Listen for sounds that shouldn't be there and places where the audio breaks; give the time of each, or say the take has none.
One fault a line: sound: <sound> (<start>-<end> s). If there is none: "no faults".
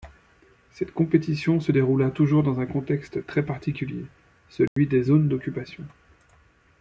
sound: dropout (4.7-4.8 s)